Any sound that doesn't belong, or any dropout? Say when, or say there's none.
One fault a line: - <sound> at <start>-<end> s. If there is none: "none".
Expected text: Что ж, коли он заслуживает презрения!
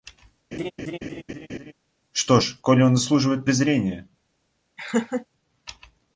- laugh at 0.5-1.7 s
- laugh at 4.8-5.3 s